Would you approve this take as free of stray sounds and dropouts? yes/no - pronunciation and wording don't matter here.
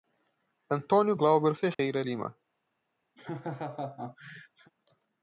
no